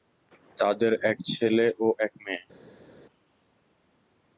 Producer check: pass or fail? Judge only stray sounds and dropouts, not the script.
pass